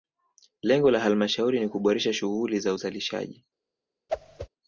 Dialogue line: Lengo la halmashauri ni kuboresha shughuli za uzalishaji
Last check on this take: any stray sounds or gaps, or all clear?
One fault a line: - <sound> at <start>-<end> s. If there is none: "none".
- whoosh at 4.1-4.5 s